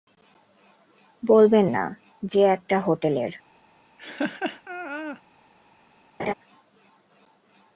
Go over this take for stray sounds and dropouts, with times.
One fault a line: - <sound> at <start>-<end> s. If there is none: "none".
- laugh at 4.0-5.2 s
- laugh at 6.2-6.3 s